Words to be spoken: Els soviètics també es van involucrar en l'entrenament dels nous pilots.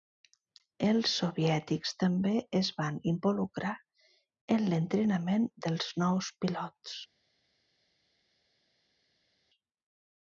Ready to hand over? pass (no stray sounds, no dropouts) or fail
pass